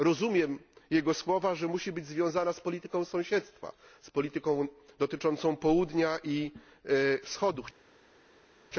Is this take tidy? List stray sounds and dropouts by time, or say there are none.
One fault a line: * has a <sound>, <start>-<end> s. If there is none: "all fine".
all fine